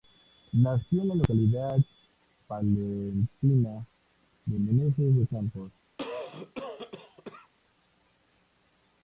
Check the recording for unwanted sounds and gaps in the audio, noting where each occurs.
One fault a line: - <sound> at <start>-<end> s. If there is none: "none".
- cough at 6.0-7.5 s